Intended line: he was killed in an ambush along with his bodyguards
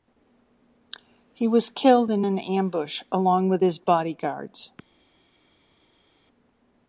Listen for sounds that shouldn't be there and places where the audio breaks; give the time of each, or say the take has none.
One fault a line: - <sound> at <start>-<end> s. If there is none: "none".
none